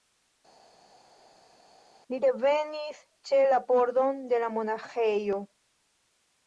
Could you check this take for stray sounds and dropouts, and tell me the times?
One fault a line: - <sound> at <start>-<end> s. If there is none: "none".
none